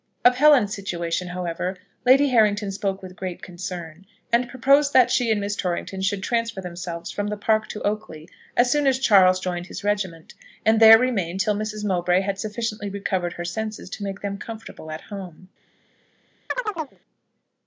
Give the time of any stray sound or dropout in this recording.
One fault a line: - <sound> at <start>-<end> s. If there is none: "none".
- chirp at 16.5-17.0 s